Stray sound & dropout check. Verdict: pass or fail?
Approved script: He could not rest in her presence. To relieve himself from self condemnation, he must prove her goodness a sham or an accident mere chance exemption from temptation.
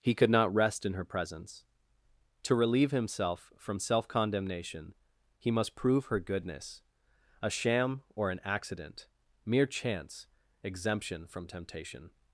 pass